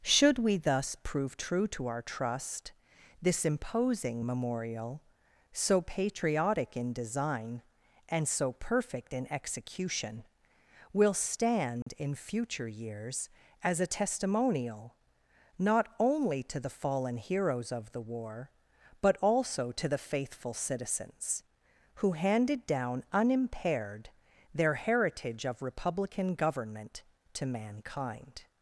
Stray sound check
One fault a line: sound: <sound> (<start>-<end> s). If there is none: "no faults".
sound: dropout (11.8-11.9 s)